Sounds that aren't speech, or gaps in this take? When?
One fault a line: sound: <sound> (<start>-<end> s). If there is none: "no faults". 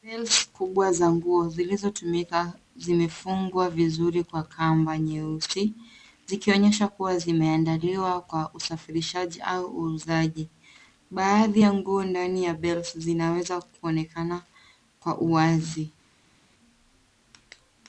no faults